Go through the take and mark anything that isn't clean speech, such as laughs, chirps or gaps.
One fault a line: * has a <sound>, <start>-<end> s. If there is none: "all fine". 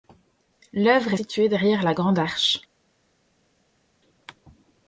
all fine